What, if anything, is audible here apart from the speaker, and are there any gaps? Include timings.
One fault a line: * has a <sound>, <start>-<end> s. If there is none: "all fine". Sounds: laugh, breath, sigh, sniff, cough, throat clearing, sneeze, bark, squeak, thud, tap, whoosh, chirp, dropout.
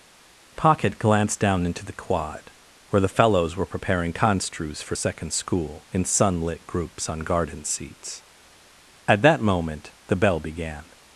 all fine